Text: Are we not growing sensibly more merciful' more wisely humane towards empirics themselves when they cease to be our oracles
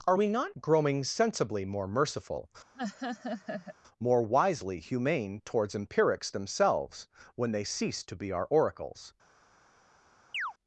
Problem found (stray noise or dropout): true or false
true